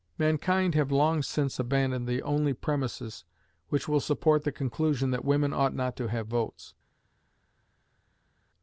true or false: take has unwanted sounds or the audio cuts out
false